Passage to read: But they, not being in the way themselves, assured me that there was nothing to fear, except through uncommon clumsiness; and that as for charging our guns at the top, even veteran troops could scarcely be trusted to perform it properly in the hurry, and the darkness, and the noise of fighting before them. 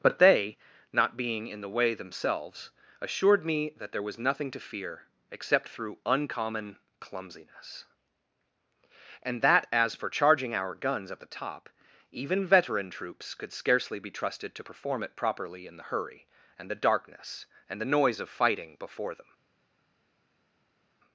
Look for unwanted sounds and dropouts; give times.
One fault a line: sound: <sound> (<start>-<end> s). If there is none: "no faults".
no faults